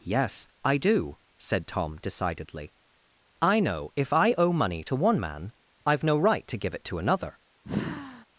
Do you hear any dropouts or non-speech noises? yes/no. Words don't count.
yes